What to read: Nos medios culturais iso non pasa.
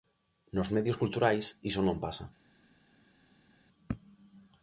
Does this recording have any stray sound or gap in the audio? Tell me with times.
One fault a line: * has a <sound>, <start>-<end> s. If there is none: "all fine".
all fine